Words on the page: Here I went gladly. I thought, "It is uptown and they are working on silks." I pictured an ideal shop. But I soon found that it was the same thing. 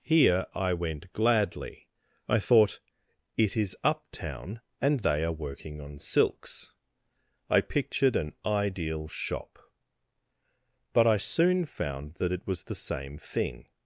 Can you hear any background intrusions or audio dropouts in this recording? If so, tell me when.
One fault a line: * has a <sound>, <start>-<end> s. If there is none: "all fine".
all fine